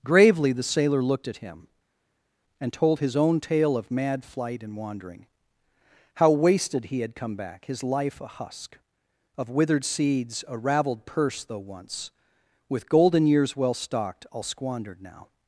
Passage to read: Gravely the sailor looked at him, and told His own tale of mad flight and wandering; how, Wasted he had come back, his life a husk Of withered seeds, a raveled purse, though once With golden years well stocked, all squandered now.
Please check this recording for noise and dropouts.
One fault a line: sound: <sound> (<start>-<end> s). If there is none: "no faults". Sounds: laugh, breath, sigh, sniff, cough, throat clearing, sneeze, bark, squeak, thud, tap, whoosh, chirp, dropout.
no faults